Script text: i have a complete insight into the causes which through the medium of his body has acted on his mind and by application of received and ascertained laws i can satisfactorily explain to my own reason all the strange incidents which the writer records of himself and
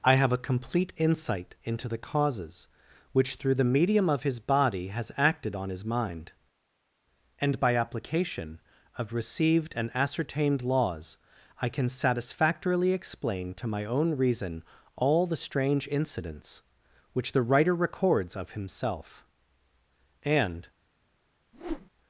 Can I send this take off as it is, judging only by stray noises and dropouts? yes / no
no